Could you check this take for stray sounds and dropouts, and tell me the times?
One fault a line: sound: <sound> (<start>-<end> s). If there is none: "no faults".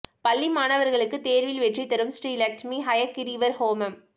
no faults